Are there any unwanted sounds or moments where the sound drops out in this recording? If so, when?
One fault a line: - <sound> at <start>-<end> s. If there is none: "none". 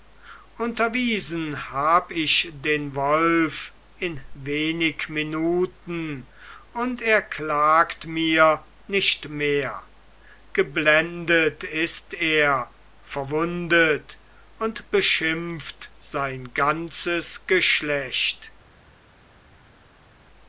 none